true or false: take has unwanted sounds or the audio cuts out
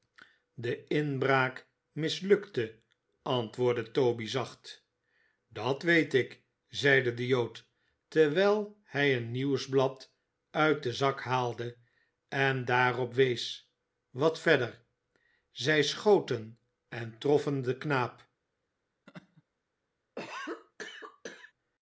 true